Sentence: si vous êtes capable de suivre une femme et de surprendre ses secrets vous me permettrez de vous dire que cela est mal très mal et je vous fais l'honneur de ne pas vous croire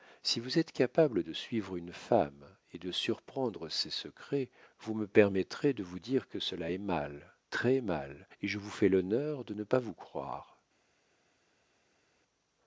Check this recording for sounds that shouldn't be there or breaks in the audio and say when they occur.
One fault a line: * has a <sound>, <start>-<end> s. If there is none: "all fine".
all fine